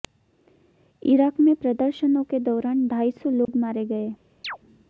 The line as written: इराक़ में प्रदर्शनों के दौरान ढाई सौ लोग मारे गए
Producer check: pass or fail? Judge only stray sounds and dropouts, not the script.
fail